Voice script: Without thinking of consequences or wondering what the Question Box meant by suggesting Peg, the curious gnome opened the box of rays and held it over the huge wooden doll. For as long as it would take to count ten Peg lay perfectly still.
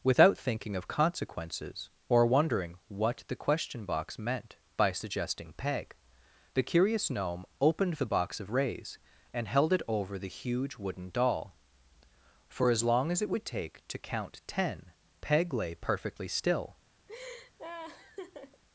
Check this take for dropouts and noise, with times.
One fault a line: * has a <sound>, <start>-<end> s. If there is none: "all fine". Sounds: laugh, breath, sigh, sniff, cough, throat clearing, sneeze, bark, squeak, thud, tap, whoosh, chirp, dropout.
* has a laugh, 17.1-18.6 s